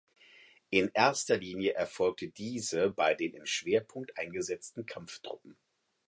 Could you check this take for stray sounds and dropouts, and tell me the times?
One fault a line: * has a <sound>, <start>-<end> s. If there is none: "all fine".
all fine